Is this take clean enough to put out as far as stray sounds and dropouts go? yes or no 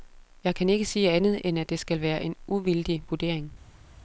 yes